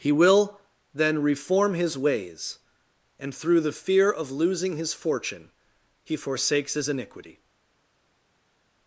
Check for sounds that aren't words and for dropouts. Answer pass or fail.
pass